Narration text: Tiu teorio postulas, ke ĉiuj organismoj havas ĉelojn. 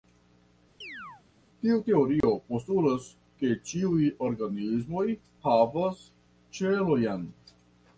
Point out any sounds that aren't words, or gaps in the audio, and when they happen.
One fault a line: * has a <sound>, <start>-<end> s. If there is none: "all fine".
* has a chirp, 0.8-1.2 s
* has a dropout, 2.2-2.2 s